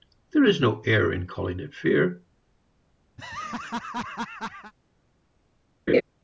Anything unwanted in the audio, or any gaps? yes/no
yes